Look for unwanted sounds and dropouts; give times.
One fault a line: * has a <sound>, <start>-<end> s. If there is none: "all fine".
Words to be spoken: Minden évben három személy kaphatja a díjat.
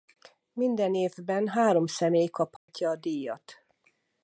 * has a dropout, 2.6-2.7 s